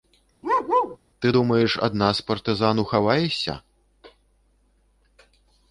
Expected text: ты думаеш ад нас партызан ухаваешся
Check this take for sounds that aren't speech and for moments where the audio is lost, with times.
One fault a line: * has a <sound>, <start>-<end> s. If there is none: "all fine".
* has a bark, 0.4-1.0 s